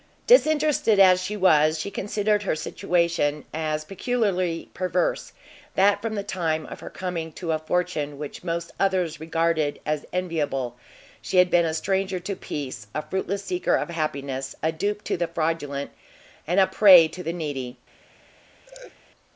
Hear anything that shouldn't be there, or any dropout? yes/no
yes